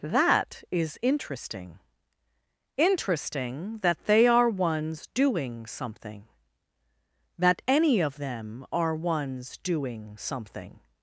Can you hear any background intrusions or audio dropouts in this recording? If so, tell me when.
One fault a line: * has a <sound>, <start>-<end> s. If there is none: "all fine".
all fine